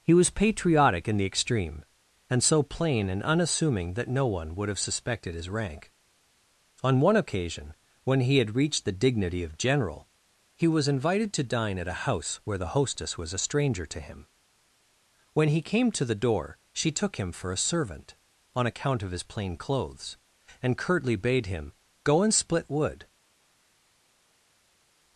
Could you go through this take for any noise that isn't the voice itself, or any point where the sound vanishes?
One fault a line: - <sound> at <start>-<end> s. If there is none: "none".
none